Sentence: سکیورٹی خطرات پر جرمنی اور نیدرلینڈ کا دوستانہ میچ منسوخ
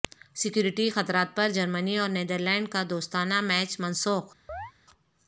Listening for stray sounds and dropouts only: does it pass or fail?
fail